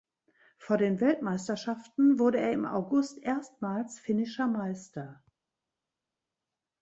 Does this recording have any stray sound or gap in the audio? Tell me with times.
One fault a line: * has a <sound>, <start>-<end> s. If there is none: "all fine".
all fine